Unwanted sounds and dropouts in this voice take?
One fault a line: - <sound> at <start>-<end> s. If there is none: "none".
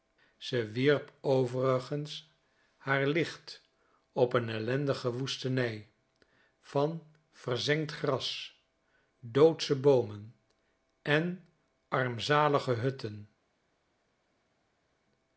none